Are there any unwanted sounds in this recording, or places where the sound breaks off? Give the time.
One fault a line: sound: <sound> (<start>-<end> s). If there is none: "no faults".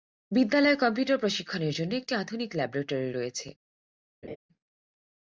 sound: laugh (4.2-4.4 s)